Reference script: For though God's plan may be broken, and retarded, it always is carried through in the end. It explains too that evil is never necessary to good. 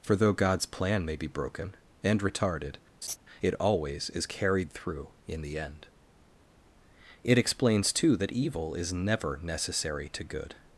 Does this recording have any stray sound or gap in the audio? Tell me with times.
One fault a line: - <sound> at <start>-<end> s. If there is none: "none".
- laugh at 3.0-3.2 s